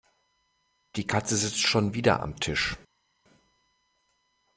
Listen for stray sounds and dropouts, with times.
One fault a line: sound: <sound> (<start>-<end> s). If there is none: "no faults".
no faults